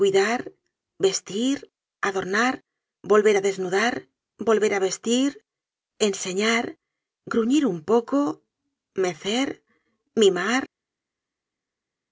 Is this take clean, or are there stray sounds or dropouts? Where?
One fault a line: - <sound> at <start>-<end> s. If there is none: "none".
none